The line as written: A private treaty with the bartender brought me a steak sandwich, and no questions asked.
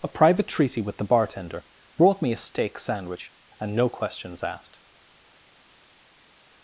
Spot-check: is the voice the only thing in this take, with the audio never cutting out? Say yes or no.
yes